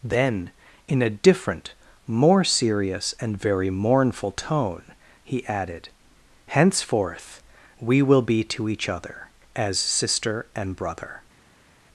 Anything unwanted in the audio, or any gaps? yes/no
no